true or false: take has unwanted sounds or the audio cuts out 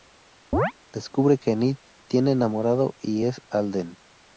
true